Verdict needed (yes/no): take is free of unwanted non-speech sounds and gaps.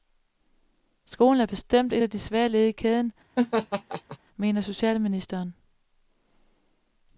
no